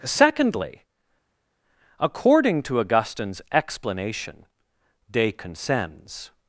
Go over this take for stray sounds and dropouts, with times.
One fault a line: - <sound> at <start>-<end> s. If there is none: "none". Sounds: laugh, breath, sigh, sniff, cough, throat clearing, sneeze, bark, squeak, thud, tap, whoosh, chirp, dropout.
none